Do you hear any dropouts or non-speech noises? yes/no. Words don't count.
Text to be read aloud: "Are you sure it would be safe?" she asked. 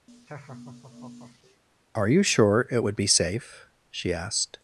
yes